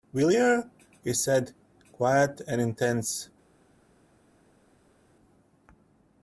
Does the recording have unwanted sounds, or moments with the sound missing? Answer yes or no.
no